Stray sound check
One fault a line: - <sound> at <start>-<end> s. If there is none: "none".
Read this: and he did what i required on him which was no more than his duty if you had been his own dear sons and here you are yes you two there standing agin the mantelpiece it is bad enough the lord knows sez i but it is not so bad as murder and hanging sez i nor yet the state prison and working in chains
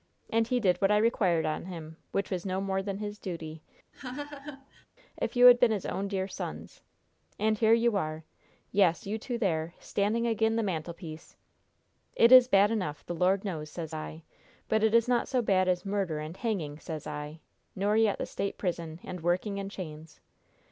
- laugh at 3.9-4.9 s